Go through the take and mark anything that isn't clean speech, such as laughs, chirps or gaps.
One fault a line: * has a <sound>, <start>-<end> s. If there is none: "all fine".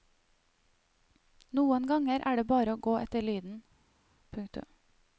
all fine